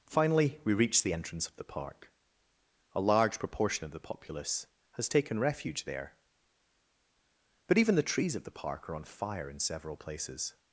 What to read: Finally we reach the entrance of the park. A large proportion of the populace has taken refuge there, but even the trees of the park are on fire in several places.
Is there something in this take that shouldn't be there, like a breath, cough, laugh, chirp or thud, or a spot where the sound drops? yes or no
no